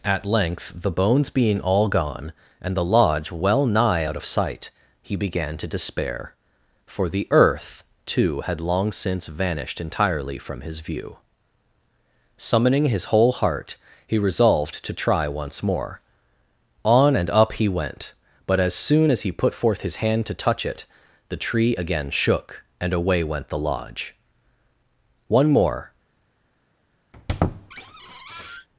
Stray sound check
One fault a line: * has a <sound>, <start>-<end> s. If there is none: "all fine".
* has a squeak, 27.1-28.7 s